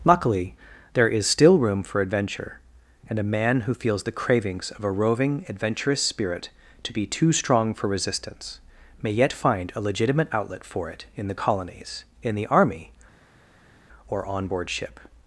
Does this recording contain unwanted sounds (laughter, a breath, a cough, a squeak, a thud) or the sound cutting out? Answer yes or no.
no